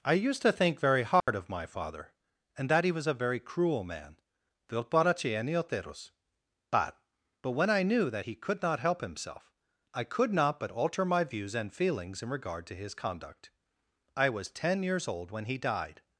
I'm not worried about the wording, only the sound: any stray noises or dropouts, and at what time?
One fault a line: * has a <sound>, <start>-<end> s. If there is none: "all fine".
* has a dropout, 1.2-1.3 s